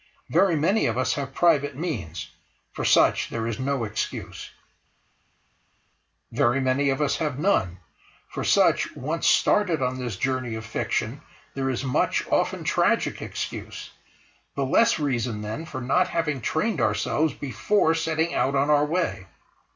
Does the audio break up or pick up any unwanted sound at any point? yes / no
no